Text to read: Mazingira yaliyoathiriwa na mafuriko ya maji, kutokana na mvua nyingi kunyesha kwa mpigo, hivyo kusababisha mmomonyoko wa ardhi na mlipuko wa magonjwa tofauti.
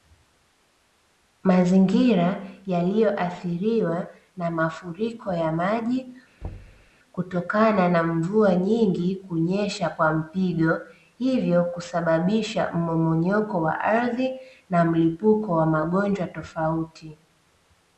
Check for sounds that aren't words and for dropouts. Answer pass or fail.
fail